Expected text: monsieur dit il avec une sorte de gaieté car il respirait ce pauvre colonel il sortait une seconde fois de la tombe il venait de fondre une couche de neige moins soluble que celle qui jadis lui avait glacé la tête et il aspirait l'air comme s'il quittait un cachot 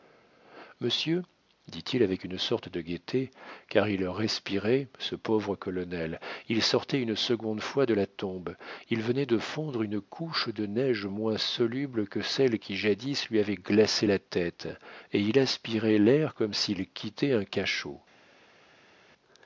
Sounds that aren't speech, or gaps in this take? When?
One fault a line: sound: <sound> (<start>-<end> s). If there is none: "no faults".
no faults